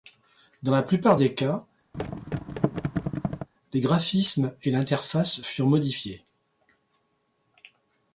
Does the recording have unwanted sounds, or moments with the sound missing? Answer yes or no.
yes